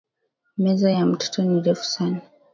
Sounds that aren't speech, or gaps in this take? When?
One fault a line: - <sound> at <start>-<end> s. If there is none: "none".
none